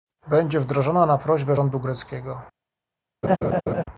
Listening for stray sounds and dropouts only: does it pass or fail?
fail